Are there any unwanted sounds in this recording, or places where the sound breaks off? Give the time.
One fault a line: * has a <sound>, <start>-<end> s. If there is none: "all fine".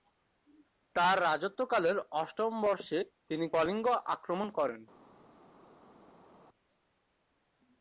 all fine